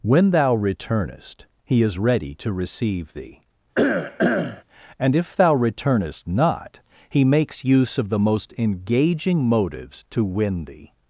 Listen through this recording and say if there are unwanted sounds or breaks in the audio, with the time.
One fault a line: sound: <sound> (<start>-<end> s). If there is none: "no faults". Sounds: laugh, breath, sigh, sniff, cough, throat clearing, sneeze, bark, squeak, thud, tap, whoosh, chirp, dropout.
sound: cough (3.7-4.6 s)